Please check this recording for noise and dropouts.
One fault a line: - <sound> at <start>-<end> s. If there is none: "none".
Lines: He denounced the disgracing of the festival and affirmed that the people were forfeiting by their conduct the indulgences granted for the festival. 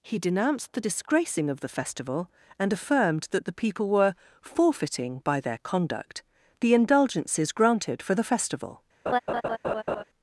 - laugh at 9.1-10.0 s